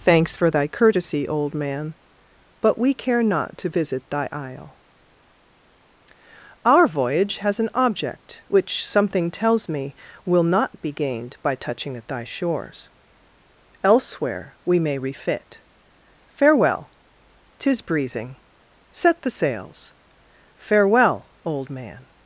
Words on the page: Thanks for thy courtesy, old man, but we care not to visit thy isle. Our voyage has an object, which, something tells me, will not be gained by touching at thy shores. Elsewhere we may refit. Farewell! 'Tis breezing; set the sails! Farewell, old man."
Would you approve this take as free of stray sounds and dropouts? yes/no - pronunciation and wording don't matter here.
yes